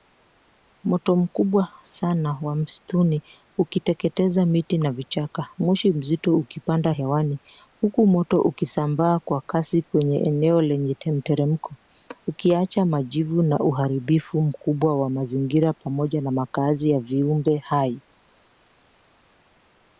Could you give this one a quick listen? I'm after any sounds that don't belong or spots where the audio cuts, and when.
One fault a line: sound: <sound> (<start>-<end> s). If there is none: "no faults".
no faults